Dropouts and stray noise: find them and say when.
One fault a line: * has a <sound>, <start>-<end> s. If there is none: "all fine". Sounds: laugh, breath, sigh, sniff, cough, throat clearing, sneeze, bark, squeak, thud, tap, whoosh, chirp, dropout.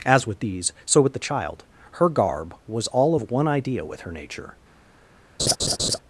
* has a laugh, 5.4-6.0 s